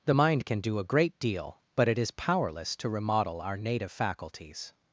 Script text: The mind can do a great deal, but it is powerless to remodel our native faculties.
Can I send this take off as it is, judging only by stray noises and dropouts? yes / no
yes